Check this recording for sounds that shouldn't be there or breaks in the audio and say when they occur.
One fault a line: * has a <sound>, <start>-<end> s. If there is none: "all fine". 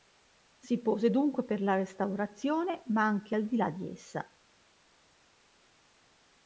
all fine